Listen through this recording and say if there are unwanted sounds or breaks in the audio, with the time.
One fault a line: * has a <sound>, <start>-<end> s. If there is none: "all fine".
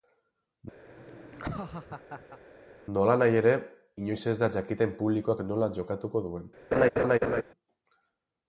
* has a laugh, 0.9-2.4 s
* has a laugh, 6.7-7.4 s